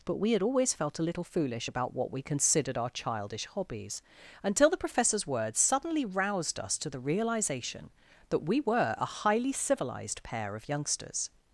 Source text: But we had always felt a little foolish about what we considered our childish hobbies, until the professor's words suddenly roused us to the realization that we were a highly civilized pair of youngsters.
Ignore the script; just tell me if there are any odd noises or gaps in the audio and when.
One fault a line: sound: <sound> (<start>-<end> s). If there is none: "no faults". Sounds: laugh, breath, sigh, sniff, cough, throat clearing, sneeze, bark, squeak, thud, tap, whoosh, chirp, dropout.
no faults